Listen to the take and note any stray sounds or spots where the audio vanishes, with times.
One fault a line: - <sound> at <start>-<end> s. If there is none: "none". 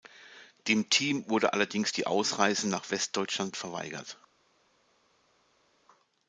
none